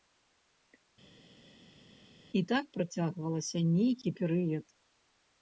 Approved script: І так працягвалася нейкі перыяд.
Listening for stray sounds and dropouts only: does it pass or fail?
pass